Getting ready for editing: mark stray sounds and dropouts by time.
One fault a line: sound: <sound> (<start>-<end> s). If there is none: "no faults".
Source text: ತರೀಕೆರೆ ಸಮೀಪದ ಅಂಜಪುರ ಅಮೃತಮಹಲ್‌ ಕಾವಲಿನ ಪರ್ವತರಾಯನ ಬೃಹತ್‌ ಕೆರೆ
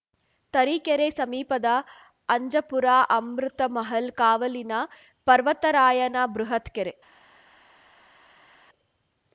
no faults